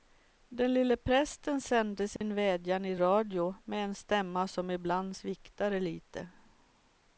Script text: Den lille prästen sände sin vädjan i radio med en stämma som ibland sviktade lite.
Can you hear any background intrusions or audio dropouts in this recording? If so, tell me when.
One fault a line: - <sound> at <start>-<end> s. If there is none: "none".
- dropout at 2.2-2.2 s